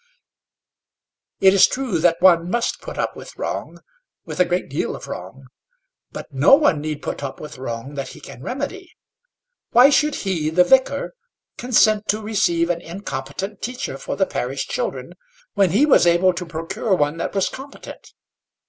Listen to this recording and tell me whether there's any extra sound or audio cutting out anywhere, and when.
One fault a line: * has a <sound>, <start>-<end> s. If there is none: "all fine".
all fine